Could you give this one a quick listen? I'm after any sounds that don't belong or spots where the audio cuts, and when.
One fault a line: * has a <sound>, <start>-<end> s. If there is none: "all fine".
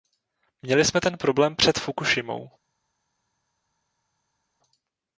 all fine